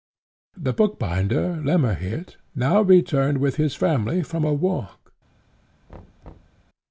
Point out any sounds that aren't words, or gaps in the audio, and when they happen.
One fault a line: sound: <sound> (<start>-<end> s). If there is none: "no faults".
sound: thud (5.9-6.6 s)